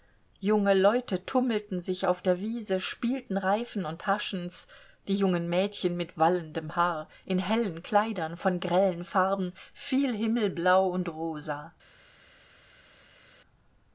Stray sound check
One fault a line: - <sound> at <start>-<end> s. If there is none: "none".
none